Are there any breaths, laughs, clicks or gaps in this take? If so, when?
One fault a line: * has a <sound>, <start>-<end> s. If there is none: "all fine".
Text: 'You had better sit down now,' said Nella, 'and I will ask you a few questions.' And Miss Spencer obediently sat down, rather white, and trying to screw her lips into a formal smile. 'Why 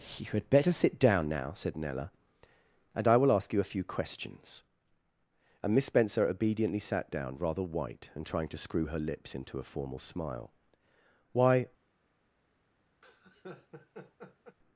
* has a laugh, 13.0-14.6 s